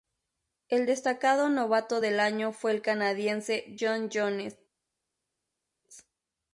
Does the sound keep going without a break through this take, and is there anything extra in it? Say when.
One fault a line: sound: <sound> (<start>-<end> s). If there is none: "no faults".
no faults